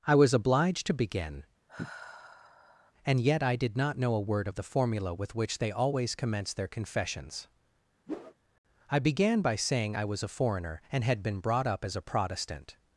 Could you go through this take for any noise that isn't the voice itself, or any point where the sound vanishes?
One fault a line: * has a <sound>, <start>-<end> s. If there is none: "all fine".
* has a sigh, 1.7-2.9 s
* has a whoosh, 8.1-8.3 s